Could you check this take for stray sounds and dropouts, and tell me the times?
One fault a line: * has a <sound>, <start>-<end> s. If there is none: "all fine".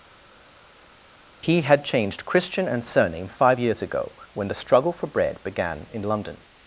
all fine